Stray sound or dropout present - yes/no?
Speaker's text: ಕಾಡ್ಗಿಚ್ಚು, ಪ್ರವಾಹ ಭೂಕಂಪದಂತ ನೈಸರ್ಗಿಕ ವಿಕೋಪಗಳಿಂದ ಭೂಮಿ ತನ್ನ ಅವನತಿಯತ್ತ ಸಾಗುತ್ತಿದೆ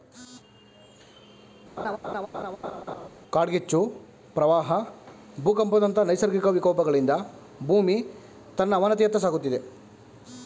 yes